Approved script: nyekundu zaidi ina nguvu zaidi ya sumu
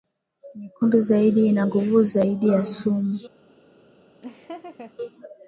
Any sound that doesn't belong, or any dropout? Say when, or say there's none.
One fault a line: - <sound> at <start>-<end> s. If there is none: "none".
- laugh at 4.2-4.9 s